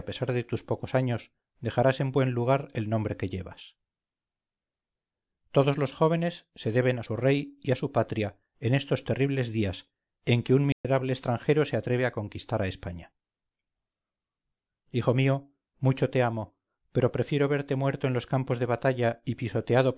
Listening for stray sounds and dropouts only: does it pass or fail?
fail